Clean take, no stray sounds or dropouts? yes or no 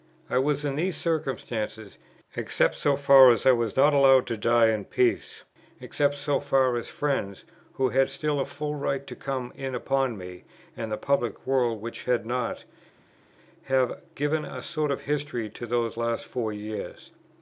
yes